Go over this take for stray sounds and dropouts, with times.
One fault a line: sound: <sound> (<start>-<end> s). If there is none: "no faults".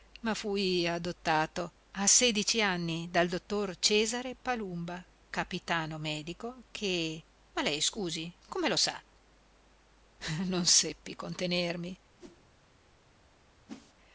sound: whoosh (12.2-12.4 s)
sound: whoosh (13.7-13.9 s)